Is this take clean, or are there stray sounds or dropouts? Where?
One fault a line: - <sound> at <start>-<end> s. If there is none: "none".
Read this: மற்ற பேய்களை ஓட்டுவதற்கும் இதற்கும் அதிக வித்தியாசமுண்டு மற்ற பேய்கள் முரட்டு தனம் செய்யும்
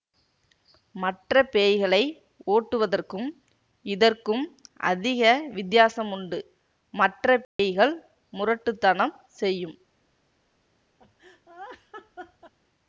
- dropout at 7.4-7.6 s
- laugh at 11.0-12.5 s